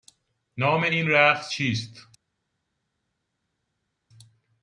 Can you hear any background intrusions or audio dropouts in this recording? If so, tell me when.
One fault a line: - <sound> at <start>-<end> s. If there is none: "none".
none